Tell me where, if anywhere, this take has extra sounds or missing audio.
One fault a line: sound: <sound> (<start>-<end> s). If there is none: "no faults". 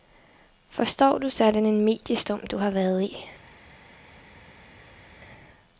no faults